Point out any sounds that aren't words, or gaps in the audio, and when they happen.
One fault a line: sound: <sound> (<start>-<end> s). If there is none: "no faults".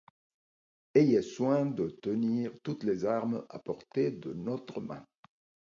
no faults